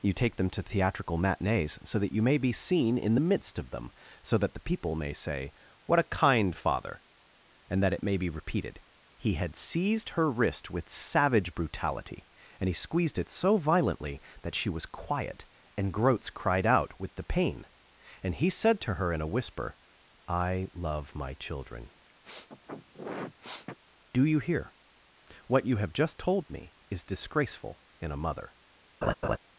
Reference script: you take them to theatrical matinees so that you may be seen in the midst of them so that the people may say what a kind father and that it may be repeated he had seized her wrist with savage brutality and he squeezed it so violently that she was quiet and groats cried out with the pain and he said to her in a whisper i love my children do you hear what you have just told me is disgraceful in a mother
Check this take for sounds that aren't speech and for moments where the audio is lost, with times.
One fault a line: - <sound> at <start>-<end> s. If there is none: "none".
- sniff at 22.2-23.8 s
- laugh at 29.0-29.4 s